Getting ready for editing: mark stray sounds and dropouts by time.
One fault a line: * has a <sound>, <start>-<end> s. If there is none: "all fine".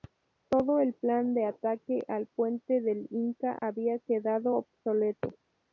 * has a dropout, 3.6-3.6 s